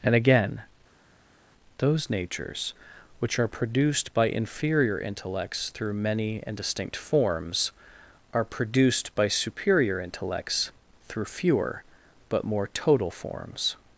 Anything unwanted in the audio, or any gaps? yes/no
no